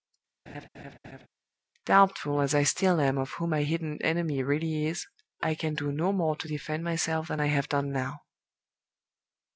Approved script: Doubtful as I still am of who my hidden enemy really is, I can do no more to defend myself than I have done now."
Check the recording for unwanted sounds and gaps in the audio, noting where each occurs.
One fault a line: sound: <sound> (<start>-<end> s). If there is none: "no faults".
sound: laugh (0.5-1.3 s)